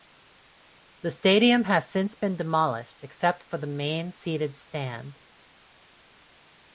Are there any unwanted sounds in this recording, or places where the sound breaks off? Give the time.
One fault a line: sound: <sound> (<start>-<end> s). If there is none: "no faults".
no faults